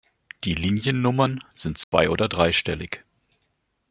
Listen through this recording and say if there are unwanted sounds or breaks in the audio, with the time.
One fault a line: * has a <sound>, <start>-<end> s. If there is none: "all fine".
* has a dropout, 1.8-1.9 s